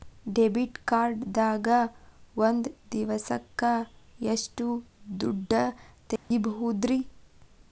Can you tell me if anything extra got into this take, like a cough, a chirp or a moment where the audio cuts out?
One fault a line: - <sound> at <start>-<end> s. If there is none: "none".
- dropout at 6.2-6.3 s